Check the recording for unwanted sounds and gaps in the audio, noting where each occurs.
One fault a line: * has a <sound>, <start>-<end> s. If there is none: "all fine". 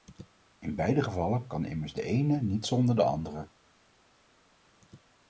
all fine